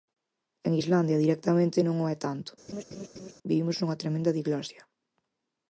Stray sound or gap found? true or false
true